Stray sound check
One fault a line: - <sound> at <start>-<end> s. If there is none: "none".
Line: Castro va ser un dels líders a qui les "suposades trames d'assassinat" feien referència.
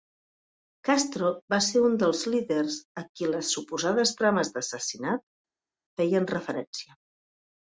none